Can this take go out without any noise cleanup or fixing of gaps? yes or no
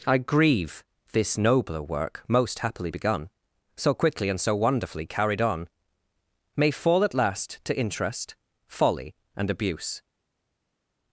yes